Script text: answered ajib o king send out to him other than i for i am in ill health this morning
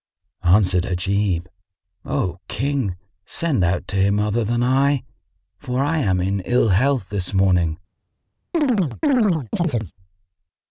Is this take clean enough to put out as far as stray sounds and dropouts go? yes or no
no